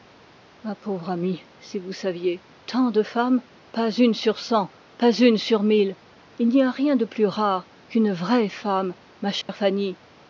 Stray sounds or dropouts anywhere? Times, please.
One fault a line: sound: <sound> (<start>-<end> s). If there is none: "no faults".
sound: dropout (9.4-9.5 s)